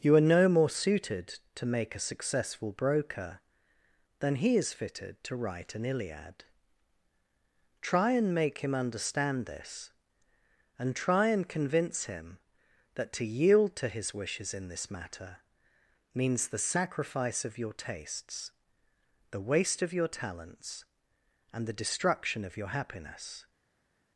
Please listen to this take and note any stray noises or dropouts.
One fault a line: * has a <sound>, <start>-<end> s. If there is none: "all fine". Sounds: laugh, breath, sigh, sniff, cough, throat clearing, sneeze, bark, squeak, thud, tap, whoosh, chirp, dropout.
all fine